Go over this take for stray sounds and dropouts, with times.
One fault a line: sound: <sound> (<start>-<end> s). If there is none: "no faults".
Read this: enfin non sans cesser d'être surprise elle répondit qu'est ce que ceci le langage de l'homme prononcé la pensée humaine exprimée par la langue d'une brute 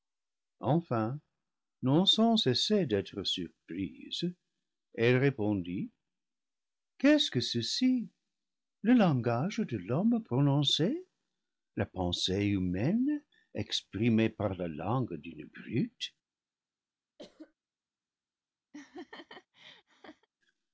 sound: cough (17.2-17.5 s)
sound: laugh (18.7-20.3 s)